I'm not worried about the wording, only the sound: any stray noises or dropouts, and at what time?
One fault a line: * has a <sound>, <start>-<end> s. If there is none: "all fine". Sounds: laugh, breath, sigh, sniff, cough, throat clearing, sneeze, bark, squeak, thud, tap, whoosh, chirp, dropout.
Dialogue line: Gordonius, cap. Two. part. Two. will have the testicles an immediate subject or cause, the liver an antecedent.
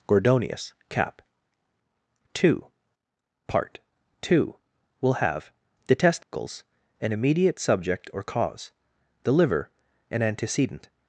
* has a dropout, 6.2-6.3 s